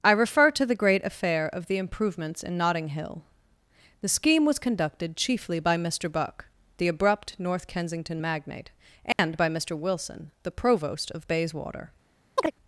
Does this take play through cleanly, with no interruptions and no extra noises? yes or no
no